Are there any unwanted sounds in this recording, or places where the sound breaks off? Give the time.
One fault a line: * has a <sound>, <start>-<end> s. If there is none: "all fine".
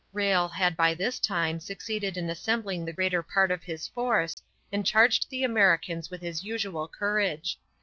* has a dropout, 4.3-4.4 s